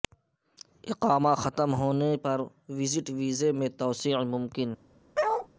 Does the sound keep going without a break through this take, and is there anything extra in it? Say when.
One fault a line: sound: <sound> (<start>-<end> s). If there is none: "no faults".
sound: bark (5.1-5.5 s)